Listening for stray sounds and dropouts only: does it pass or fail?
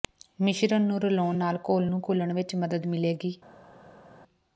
pass